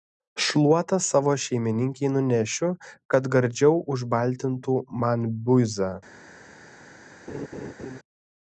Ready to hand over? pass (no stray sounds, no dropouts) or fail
fail